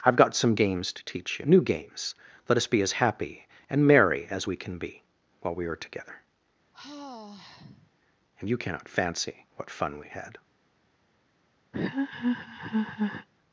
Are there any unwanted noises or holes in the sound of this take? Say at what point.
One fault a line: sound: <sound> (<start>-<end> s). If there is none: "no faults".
sound: sigh (6.7-7.9 s)
sound: laugh (11.7-13.3 s)